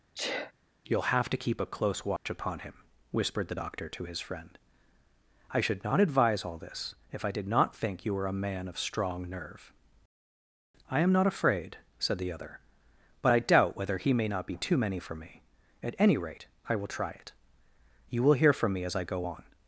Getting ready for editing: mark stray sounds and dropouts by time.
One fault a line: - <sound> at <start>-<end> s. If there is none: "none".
- sneeze at 0.1-0.5 s
- dropout at 2.2-2.3 s